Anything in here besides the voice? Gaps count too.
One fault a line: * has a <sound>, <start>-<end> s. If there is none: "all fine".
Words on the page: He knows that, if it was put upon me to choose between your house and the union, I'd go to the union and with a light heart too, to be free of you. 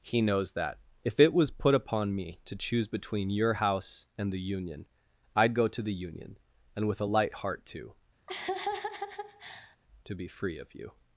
* has a laugh, 8.3-9.8 s